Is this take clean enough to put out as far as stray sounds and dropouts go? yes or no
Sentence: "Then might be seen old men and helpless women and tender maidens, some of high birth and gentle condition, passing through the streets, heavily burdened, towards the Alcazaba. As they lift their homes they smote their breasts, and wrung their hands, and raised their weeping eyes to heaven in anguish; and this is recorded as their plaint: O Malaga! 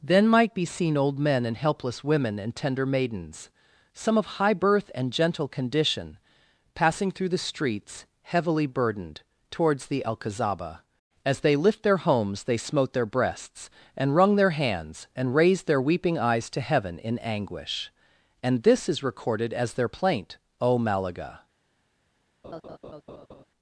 no